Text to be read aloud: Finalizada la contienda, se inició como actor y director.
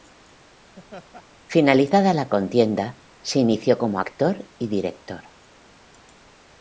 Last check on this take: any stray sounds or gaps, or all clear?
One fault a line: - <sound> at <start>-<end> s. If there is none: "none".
- laugh at 0.8-1.2 s